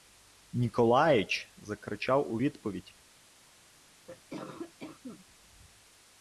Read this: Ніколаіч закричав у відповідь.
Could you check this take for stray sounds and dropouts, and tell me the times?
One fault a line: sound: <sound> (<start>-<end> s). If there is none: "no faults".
sound: cough (4.1-5.3 s)